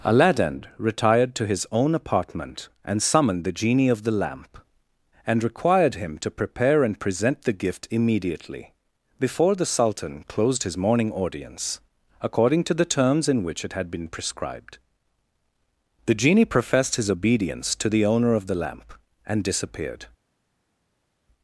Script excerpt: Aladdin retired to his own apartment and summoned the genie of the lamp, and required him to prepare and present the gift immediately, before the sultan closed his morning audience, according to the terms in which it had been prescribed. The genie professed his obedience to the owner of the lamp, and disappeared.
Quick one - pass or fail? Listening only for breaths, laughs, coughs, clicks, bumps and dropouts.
pass